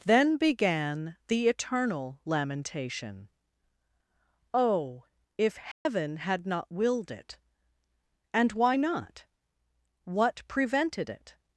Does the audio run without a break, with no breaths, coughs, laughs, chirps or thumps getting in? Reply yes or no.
no